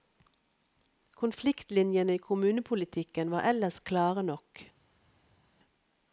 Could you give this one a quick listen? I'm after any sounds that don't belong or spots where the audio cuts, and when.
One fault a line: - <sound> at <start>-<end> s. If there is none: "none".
none